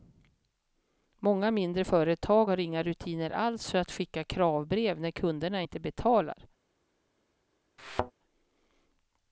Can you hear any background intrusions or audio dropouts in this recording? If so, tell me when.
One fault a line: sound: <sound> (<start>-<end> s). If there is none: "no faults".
sound: thud (7.8-8.1 s)